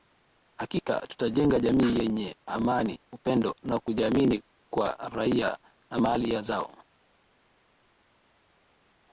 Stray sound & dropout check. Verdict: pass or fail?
pass